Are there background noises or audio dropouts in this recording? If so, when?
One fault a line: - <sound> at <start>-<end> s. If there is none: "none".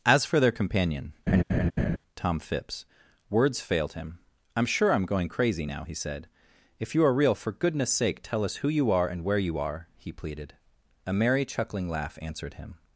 - laugh at 1.3-2.0 s